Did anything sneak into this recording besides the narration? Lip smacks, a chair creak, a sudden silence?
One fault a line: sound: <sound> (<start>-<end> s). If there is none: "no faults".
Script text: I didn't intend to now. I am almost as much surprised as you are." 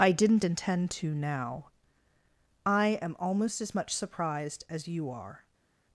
no faults